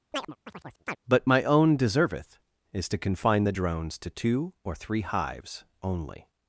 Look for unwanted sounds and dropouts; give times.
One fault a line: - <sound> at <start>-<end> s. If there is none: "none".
- chirp at 0.1-1.0 s